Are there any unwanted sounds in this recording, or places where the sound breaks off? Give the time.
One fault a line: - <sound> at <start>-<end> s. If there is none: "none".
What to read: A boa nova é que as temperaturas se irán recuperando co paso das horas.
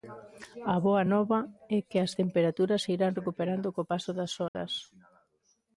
- dropout at 4.5-4.5 s